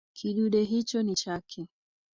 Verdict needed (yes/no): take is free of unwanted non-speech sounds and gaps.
yes